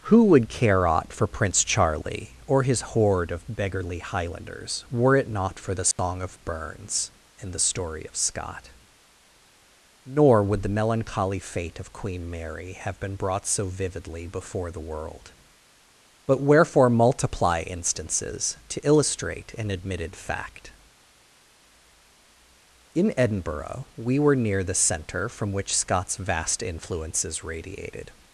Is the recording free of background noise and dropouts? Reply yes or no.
no